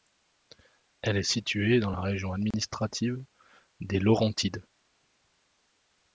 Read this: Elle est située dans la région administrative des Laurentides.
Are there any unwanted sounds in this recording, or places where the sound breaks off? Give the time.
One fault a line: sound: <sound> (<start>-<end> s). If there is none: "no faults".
sound: dropout (2.5-2.5 s)